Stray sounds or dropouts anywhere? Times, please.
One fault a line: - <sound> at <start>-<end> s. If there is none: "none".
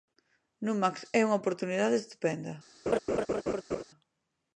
- laugh at 2.9-3.8 s